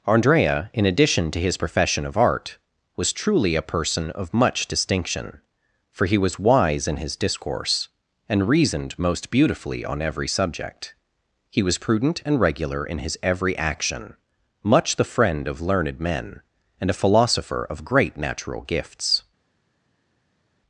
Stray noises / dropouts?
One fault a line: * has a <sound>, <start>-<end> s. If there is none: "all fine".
all fine